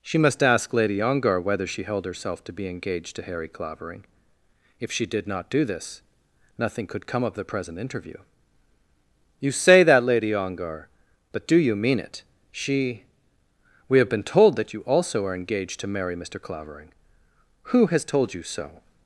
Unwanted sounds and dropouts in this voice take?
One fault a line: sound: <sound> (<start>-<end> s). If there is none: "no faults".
no faults